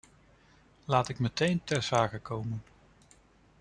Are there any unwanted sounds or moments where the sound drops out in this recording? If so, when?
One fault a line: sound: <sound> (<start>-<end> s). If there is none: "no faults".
no faults